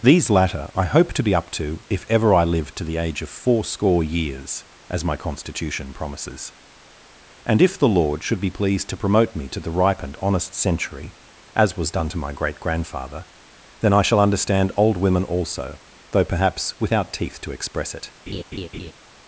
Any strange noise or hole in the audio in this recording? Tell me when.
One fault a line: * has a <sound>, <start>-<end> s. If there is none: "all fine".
* has a laugh, 18.3-18.9 s